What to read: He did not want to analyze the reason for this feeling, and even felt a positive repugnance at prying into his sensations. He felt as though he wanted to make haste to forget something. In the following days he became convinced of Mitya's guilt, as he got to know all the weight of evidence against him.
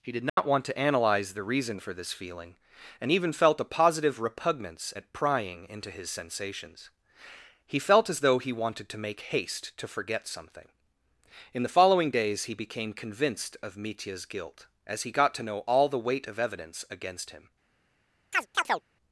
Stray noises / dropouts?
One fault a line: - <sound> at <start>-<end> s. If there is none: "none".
- dropout at 0.3-0.4 s
- chirp at 18.3-18.8 s